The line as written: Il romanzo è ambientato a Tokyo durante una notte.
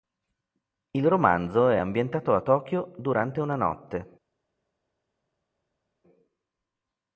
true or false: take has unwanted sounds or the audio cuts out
false